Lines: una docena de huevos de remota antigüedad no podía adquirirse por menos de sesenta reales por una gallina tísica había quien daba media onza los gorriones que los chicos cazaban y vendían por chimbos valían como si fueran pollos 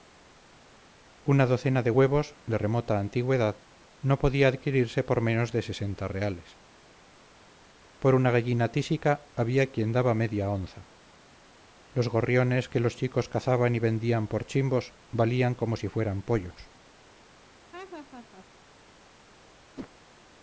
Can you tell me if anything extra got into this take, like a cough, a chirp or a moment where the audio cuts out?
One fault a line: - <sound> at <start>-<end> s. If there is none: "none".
- laugh at 17.7-18.5 s
- whoosh at 19.8-19.9 s